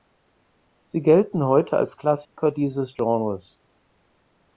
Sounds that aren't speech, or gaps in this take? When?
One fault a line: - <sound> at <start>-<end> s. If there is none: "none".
- dropout at 2.3-2.4 s